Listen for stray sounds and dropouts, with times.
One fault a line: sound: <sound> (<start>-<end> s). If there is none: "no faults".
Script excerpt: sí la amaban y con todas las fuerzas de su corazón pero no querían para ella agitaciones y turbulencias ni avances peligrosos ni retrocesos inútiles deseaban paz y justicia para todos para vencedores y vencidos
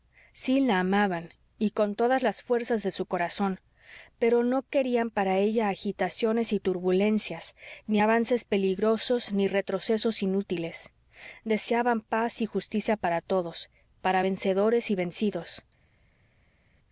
no faults